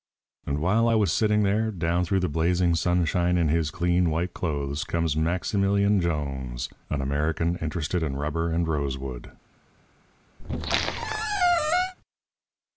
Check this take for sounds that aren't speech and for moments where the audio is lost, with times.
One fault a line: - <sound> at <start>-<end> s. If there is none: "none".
- squeak at 10.4-11.9 s